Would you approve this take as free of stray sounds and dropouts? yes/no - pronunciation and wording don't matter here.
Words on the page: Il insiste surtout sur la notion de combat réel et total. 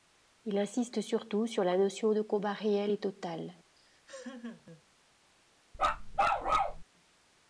no